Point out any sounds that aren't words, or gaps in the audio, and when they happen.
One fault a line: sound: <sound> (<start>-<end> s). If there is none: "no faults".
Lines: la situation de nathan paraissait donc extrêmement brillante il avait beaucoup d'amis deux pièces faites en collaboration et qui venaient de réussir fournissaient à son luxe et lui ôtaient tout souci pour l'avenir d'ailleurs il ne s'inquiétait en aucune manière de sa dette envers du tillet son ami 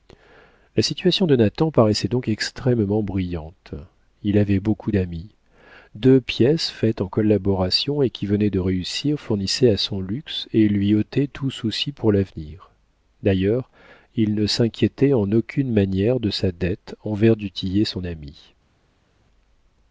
no faults